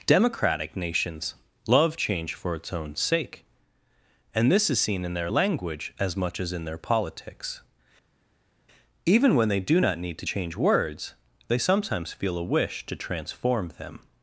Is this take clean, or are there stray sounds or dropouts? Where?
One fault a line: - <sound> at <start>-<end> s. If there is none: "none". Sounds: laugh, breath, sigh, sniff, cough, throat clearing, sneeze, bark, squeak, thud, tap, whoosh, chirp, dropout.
none